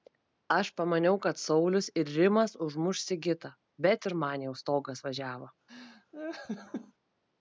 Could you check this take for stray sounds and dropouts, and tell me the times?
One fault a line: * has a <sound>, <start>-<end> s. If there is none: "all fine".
* has a laugh, 5.7-6.9 s